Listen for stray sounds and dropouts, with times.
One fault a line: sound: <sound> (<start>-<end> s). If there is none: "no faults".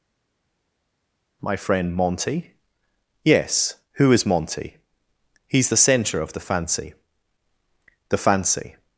no faults